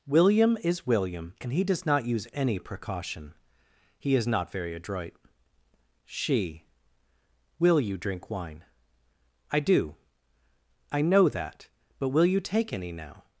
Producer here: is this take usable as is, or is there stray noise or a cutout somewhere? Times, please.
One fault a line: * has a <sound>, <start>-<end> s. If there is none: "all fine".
all fine